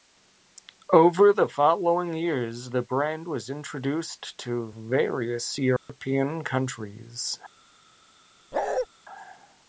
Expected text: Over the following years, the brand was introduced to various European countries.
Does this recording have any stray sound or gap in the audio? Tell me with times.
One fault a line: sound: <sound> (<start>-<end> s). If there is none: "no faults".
sound: dropout (5.8-5.9 s)
sound: bark (8.5-8.9 s)